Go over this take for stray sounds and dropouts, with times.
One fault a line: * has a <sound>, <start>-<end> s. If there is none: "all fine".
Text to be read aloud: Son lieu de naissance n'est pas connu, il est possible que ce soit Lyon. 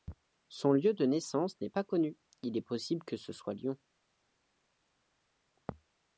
all fine